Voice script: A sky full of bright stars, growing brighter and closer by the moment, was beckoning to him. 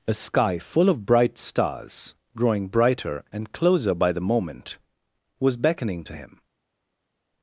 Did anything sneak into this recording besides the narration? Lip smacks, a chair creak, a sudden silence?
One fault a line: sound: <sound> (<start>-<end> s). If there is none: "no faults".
no faults